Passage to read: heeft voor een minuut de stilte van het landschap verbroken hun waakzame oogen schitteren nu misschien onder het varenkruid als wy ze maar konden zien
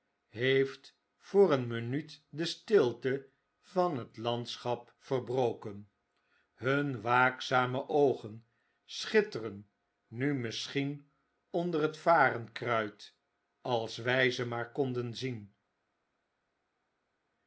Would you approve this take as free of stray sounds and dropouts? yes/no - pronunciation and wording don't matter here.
yes